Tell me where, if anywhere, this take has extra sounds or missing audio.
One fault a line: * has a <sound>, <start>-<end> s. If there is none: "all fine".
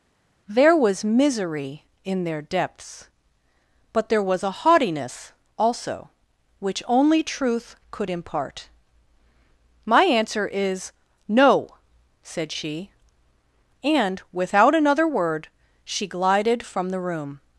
all fine